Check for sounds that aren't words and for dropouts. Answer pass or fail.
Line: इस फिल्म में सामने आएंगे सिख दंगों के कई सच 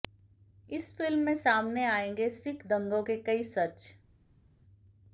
pass